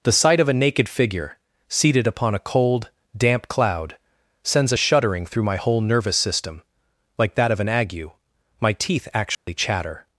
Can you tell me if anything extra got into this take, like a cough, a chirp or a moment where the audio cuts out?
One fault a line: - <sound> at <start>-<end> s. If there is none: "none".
- dropout at 9.3-9.5 s